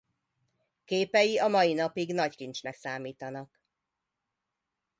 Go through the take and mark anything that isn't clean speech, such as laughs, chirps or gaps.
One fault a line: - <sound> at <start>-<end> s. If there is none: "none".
none